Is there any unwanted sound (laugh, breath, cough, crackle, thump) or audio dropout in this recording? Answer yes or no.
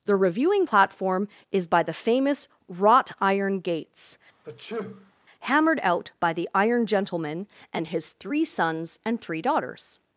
yes